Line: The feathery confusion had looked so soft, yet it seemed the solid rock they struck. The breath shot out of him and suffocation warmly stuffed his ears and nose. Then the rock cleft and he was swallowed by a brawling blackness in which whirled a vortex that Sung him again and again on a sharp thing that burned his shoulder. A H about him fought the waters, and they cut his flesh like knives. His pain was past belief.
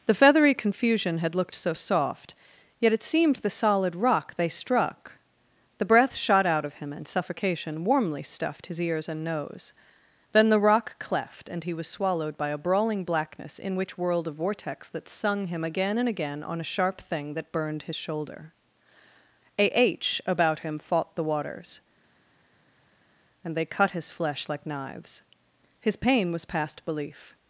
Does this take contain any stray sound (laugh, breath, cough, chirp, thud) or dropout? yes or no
no